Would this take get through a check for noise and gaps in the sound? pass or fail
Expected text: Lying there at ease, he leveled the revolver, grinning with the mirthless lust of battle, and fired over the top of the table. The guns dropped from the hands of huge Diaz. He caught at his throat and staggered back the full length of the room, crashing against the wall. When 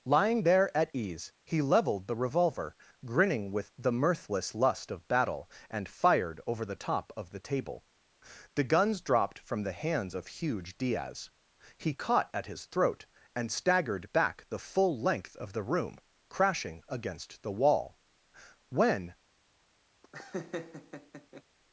fail